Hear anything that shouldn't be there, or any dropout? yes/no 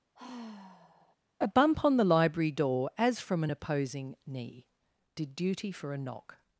yes